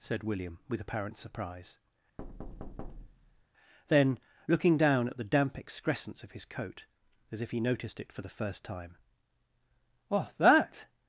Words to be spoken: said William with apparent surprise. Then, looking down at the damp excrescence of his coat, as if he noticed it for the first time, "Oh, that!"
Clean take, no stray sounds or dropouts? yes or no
no